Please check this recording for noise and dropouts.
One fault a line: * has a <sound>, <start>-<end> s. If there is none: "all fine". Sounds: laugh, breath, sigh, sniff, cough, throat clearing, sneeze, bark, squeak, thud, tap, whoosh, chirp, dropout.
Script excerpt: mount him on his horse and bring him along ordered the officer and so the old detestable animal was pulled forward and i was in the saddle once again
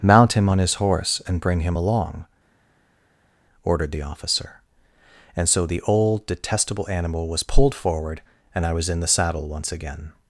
all fine